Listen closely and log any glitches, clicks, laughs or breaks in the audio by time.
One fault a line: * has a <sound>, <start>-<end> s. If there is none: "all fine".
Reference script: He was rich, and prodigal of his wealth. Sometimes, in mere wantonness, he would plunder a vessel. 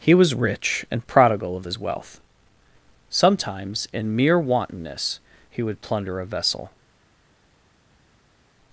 all fine